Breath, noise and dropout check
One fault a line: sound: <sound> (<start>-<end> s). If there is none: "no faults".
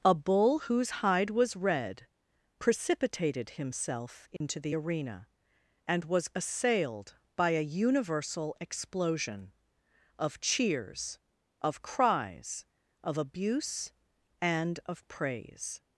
sound: dropout (4.4-4.4 s)